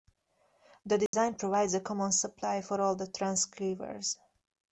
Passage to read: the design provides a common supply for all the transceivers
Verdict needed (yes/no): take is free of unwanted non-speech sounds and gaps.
no